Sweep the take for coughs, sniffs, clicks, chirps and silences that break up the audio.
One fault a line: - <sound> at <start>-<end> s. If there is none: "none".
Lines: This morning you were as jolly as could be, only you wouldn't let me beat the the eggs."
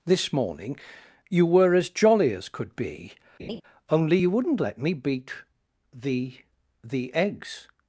- laugh at 3.4-3.6 s